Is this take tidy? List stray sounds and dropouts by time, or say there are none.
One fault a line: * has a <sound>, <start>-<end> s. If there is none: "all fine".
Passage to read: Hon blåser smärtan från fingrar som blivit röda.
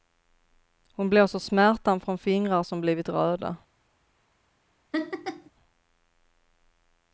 * has a laugh, 4.9-5.5 s